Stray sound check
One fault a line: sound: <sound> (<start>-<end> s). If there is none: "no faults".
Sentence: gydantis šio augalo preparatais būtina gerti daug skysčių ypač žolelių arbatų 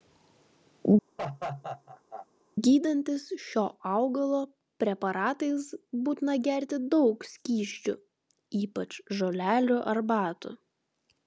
sound: laugh (1.2-2.3 s)